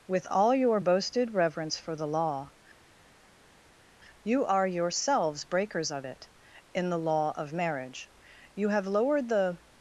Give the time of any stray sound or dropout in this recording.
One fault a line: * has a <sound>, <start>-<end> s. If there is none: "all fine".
all fine